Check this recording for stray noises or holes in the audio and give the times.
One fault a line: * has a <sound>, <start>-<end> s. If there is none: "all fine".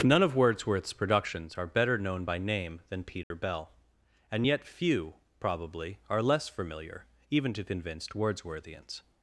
* has a dropout, 3.2-3.3 s